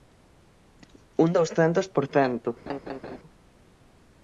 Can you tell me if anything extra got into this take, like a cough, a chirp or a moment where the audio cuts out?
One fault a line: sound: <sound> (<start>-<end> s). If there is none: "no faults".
sound: laugh (2.7-3.2 s)